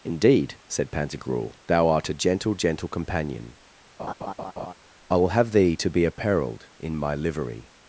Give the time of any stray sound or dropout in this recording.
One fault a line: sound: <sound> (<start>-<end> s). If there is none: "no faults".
sound: laugh (4.0-4.7 s)